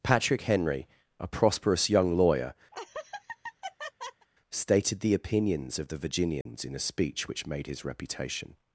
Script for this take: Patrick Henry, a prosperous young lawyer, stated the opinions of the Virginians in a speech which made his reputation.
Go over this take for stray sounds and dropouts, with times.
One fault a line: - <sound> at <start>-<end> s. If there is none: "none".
- laugh at 2.7-4.3 s
- dropout at 6.4-6.5 s